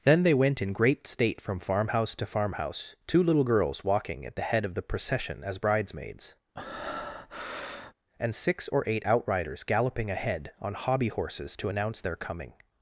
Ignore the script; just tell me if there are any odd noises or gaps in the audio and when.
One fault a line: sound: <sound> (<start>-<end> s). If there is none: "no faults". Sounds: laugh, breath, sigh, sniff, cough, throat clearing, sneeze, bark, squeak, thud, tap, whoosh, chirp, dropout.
sound: breath (6.5-7.9 s)